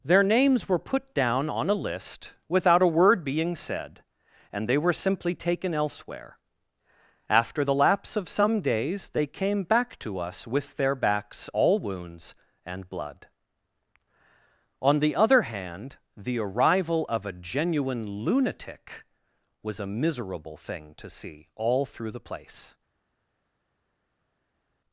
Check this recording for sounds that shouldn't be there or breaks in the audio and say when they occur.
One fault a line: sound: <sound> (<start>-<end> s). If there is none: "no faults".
no faults